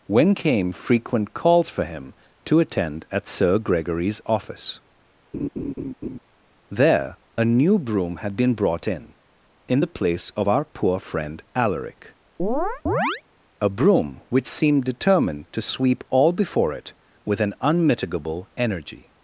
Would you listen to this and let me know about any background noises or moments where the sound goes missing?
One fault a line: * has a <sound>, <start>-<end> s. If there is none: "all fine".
* has a laugh, 5.3-6.2 s
* has a chirp, 12.4-13.2 s